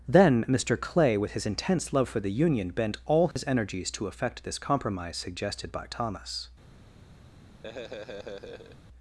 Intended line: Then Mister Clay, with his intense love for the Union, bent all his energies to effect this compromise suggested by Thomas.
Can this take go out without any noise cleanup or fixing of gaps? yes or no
no